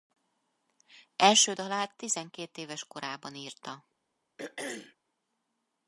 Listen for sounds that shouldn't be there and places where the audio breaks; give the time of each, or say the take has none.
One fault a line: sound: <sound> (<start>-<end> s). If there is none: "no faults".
sound: throat clearing (4.4-5.0 s)